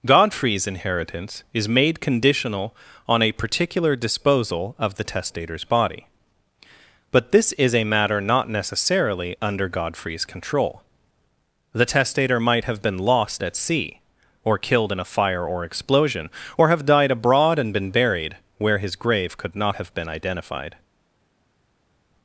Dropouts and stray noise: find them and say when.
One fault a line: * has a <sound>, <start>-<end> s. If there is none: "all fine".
all fine